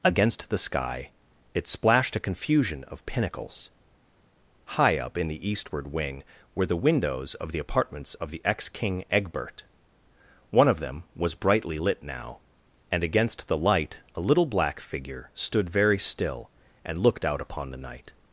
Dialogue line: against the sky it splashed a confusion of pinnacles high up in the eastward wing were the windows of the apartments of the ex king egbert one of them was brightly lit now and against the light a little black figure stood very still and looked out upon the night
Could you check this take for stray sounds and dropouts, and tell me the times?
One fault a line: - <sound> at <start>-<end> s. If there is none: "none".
none